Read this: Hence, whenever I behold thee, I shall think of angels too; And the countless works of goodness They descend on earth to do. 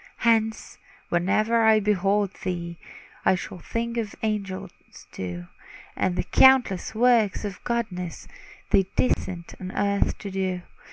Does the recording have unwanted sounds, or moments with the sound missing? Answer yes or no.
yes